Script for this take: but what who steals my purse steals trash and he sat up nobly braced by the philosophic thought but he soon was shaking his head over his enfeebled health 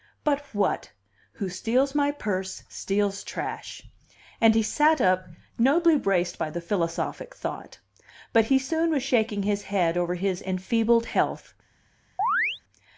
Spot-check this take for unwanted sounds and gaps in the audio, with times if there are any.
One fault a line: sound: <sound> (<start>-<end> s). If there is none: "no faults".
sound: chirp (12.2-12.6 s)